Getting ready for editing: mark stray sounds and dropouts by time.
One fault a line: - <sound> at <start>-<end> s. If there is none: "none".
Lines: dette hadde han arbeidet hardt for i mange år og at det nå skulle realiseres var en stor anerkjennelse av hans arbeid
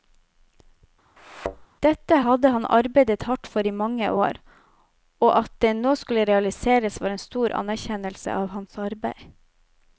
- thud at 1.2-1.7 s